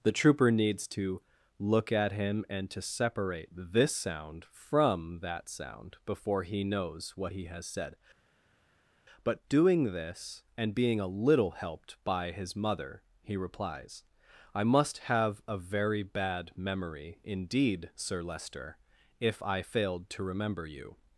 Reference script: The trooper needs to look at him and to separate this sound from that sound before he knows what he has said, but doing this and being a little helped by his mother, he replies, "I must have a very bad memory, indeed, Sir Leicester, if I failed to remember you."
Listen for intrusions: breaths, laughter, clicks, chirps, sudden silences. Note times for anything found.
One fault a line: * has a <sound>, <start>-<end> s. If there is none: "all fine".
all fine